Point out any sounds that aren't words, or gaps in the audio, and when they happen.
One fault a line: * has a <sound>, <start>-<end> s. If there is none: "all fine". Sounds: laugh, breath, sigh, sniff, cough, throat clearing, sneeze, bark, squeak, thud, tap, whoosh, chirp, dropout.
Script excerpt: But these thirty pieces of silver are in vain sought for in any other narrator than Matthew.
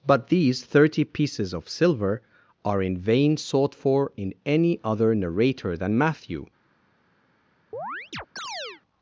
* has a chirp, 7.7-8.8 s